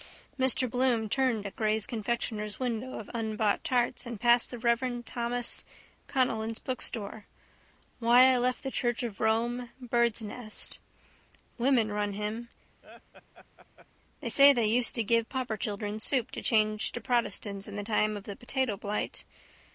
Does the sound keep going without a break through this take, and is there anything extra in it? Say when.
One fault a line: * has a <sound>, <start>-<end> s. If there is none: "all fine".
* has a laugh, 12.8-13.9 s